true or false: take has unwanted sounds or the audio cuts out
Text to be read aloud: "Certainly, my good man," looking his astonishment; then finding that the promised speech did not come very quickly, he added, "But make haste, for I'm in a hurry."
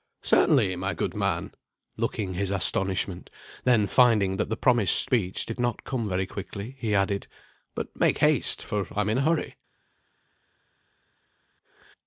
false